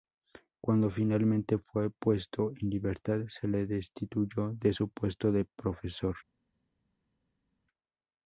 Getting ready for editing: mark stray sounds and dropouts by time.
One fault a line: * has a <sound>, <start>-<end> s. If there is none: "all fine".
all fine